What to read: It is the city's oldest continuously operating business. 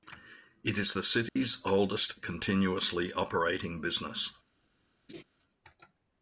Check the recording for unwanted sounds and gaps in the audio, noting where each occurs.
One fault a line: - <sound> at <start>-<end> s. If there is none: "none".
- dropout at 1.3-1.4 s
- laugh at 5.1-5.2 s